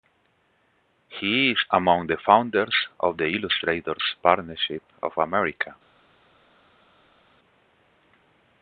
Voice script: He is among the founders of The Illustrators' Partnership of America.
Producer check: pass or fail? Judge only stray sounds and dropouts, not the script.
pass